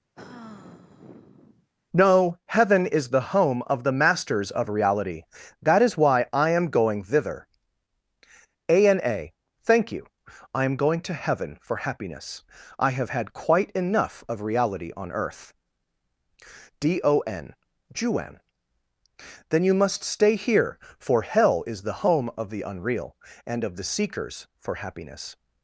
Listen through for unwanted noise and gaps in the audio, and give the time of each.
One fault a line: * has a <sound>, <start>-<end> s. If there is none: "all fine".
* has a sigh, 0.2-1.7 s